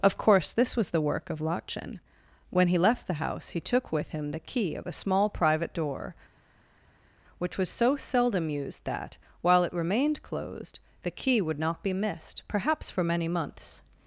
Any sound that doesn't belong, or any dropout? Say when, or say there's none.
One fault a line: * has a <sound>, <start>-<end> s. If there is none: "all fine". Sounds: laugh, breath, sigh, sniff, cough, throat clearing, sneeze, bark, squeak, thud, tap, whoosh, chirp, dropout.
all fine